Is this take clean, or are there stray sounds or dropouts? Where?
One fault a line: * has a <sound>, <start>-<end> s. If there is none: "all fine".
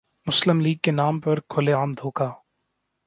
all fine